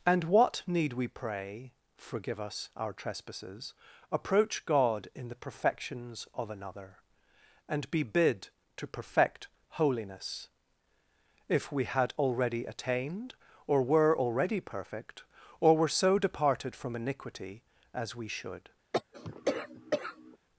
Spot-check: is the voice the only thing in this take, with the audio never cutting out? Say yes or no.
no